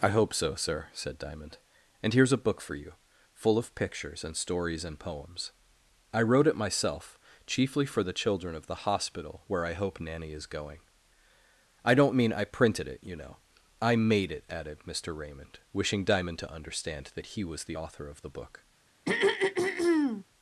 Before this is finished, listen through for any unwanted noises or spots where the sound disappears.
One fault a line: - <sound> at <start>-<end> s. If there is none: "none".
- throat clearing at 19.1-20.2 s